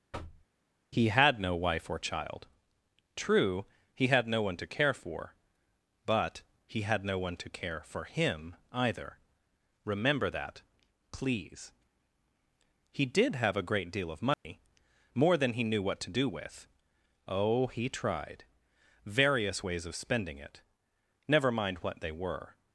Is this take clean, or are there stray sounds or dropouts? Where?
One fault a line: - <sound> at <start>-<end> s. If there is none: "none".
- thud at 0.1-0.5 s
- dropout at 14.3-14.4 s